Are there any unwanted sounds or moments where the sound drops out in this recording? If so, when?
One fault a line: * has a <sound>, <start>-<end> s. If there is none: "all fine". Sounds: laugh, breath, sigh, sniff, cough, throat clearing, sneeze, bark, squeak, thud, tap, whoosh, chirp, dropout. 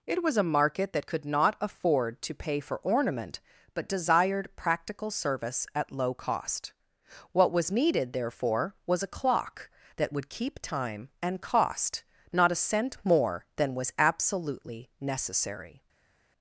all fine